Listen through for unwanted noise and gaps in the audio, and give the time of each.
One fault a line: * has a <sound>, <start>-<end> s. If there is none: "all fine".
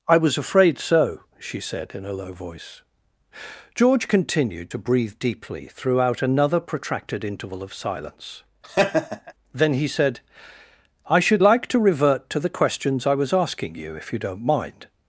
* has a laugh, 8.6-9.3 s